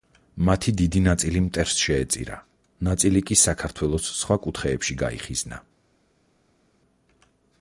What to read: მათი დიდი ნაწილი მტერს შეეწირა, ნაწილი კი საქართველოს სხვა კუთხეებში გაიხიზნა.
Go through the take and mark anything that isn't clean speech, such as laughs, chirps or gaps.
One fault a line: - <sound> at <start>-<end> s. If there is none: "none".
none